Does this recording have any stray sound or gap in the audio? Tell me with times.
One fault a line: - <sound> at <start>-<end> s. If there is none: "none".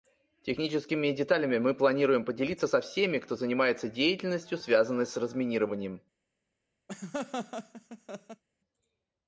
- laugh at 6.9-8.4 s